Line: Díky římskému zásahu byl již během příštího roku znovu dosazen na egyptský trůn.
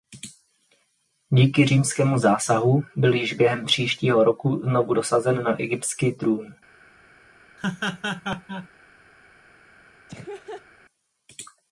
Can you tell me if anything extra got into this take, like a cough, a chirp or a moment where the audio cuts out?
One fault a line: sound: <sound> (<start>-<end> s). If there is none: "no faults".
sound: laugh (7.6-8.7 s)
sound: laugh (10.1-10.7 s)